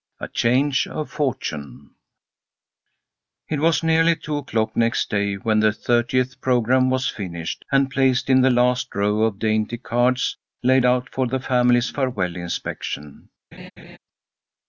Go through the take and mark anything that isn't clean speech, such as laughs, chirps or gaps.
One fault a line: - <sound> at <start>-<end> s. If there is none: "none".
- laugh at 13.5-14.0 s